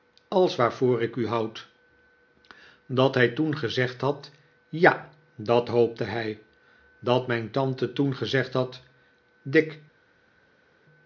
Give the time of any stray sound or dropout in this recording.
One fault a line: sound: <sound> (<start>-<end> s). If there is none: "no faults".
no faults